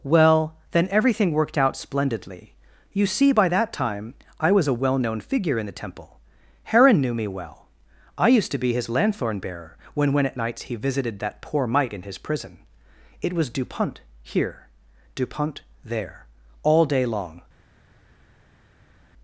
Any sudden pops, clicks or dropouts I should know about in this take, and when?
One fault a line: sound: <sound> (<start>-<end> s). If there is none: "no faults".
no faults